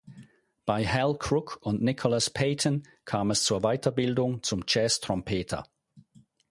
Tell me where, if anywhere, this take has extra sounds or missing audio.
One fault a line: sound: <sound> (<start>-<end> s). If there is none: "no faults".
no faults